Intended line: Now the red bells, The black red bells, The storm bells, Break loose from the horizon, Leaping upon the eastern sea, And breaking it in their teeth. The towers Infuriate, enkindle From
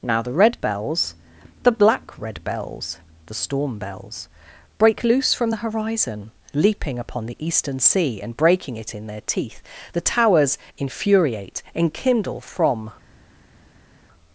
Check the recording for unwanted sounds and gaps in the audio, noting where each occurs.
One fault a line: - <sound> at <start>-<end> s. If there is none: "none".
none